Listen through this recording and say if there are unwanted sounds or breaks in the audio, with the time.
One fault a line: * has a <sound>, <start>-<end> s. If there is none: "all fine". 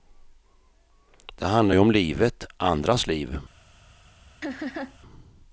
* has a laugh, 4.4-5.0 s